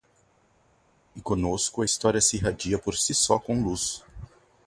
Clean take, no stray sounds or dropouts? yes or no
yes